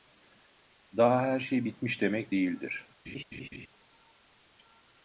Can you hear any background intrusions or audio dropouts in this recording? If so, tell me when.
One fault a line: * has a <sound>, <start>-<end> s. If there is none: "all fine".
* has a laugh, 3.1-3.7 s